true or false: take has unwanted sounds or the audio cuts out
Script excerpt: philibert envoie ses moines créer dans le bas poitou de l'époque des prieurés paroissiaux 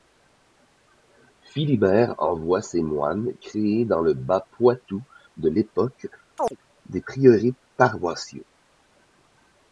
true